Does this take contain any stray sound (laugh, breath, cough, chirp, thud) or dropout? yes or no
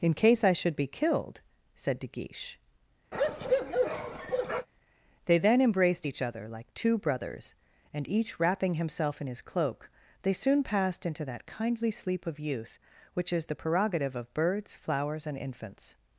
yes